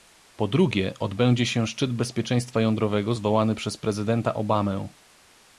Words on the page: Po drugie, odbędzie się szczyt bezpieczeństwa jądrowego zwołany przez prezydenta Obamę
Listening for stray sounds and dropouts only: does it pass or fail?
pass